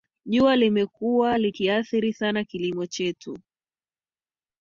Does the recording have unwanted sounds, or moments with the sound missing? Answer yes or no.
no